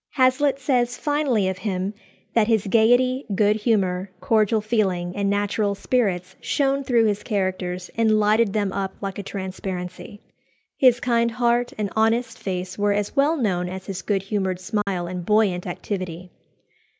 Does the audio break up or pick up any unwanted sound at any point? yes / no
yes